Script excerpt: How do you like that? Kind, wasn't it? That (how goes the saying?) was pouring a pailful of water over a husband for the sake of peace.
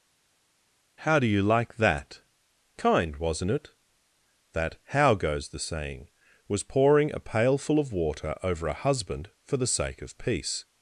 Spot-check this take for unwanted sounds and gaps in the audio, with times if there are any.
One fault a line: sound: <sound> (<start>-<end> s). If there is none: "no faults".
no faults